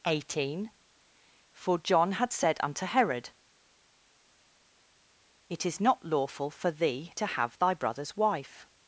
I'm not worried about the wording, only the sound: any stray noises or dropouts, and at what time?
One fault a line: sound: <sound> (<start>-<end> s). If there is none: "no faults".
no faults